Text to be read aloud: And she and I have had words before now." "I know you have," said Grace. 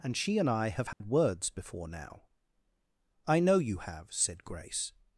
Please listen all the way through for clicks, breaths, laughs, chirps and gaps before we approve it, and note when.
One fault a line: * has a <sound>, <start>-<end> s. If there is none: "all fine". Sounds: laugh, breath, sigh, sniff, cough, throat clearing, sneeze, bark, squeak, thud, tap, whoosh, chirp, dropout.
* has a dropout, 0.9-1.0 s